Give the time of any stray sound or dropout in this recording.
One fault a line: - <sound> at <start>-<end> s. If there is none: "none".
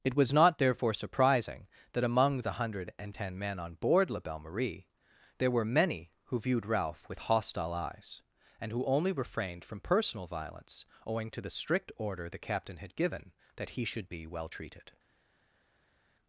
none